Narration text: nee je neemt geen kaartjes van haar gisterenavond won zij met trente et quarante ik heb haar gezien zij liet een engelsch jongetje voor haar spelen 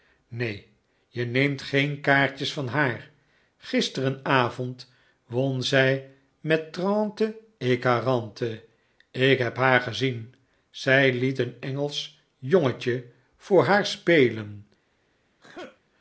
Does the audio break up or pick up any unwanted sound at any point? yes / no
yes